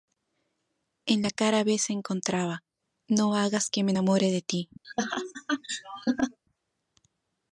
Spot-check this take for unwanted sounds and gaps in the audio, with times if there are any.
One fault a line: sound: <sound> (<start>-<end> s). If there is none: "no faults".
sound: laugh (4.8-6.4 s)